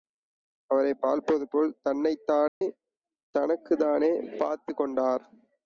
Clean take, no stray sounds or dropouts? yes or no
no